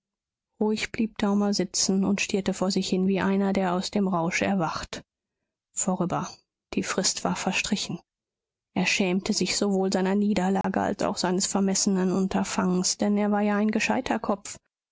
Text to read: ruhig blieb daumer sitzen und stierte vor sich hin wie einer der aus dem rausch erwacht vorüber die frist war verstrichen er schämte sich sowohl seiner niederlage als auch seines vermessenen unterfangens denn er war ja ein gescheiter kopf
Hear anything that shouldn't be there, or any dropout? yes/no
yes